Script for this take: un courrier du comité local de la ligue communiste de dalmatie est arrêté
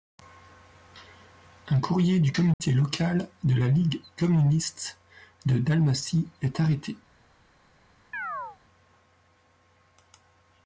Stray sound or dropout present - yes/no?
yes